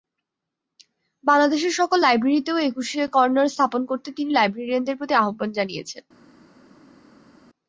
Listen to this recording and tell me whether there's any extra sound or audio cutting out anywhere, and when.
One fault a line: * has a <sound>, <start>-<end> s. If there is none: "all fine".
all fine